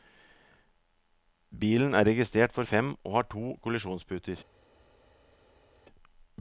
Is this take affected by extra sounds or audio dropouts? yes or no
no